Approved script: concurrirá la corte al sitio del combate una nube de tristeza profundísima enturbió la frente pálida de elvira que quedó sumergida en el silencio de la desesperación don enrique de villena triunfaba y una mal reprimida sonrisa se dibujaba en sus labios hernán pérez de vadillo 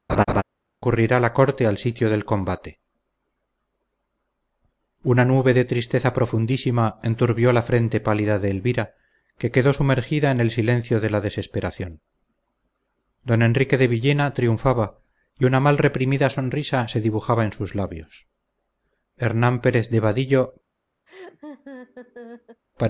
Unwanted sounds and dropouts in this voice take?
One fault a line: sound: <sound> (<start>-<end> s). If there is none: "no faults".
sound: laugh (0.1-0.4 s)
sound: laugh (21.1-22.6 s)